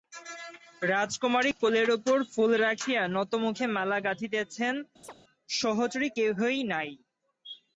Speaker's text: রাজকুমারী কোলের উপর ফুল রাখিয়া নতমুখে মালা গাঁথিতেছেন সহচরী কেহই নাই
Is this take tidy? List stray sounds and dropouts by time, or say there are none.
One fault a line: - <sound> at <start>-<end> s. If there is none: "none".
- chirp at 5.0-5.1 s